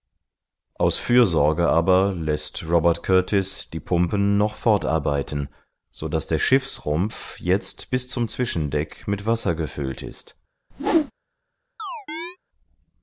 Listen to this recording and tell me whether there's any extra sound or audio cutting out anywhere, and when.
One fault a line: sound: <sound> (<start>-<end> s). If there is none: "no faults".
sound: whoosh (10.7-11.1 s)
sound: chirp (11.8-12.4 s)